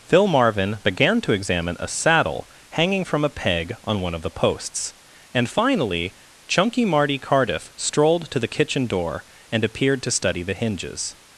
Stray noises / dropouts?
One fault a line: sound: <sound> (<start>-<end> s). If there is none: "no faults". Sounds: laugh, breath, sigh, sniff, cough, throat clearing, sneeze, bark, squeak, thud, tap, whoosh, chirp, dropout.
no faults